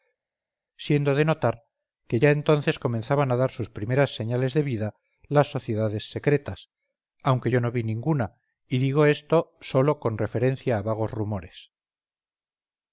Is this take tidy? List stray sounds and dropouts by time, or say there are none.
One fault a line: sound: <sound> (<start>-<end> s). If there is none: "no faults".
no faults